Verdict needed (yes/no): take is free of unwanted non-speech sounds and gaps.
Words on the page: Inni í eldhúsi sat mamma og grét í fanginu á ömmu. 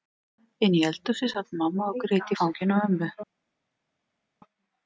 yes